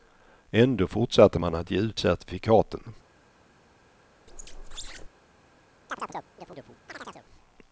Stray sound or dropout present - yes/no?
yes